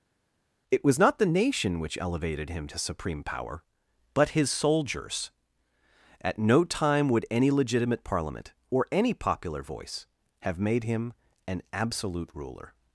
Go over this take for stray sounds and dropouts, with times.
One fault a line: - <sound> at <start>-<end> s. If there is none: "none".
none